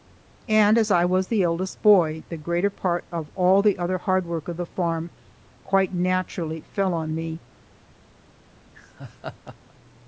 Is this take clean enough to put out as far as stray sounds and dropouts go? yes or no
no